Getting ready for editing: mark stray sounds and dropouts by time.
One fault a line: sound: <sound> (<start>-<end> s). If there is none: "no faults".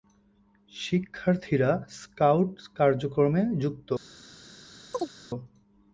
sound: chirp (4.9-5.1 s)